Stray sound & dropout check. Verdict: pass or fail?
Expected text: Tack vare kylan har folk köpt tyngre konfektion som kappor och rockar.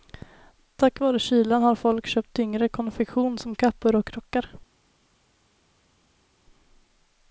pass